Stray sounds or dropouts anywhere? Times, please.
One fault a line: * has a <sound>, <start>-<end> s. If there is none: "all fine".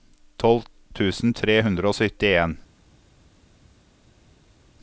all fine